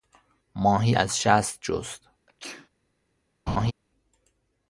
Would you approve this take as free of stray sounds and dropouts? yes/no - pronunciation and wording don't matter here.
no